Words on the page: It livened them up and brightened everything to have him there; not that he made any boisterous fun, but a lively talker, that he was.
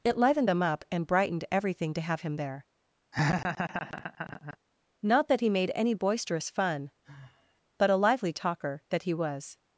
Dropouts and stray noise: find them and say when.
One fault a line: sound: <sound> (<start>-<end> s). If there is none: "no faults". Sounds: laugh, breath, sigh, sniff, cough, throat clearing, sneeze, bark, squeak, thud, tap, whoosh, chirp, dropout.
sound: laugh (3.1-4.6 s)
sound: sigh (7.0-7.6 s)